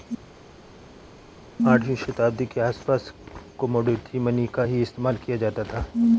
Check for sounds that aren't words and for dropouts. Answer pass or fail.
pass